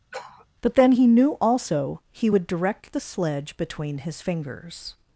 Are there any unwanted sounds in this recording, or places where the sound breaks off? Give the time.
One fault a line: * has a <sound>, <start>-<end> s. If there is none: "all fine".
* has a sniff, 0.1-0.5 s